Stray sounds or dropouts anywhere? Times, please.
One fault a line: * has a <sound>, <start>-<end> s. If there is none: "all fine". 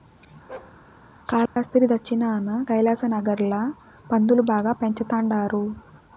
* has a bark, 0.5-0.8 s
* has a dropout, 1.5-1.6 s